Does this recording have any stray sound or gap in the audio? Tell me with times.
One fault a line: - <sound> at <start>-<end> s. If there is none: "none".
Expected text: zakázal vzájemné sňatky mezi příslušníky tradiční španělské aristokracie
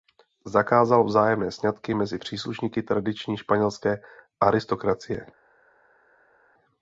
none